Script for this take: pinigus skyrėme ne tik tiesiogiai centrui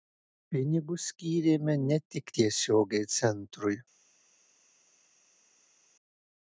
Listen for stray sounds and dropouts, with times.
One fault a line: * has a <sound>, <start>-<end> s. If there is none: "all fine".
all fine